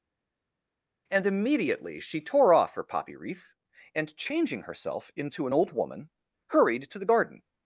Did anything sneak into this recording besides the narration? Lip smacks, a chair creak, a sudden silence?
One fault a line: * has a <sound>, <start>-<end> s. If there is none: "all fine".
all fine